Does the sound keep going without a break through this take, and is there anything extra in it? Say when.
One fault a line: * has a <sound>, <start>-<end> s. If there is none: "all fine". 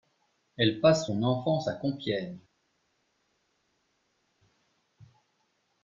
all fine